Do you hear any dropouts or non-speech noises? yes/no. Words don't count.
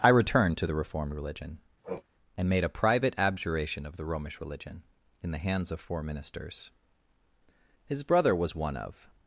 yes